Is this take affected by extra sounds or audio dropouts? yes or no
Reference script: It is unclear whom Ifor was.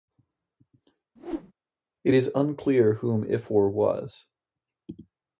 yes